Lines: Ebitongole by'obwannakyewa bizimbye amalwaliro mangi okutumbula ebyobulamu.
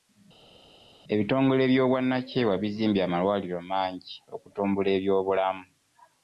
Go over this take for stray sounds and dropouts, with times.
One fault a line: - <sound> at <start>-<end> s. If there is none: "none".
none